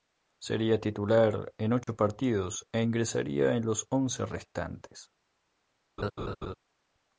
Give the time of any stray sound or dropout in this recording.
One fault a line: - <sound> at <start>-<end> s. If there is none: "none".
- dropout at 1.8-1.9 s
- laugh at 6.0-6.5 s